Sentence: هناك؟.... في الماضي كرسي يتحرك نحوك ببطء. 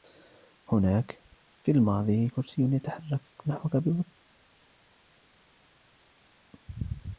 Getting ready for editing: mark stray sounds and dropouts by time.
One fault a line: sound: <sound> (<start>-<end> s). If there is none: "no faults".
no faults